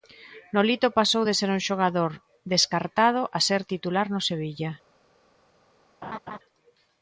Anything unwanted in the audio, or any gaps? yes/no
yes